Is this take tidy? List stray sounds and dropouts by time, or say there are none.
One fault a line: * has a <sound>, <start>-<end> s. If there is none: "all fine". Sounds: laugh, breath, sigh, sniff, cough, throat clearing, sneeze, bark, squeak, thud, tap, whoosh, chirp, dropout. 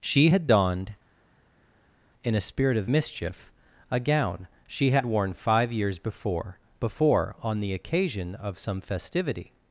all fine